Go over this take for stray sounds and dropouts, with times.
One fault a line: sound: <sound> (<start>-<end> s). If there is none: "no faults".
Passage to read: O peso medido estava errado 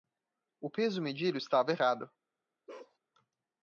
sound: bark (2.7-3.0 s)